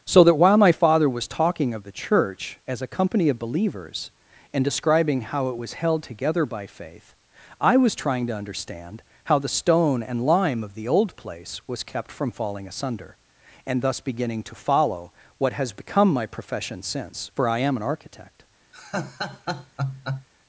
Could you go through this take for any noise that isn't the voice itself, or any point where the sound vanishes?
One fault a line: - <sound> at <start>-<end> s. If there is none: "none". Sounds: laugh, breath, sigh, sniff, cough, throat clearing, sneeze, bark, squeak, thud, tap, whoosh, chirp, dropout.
- laugh at 18.7-20.3 s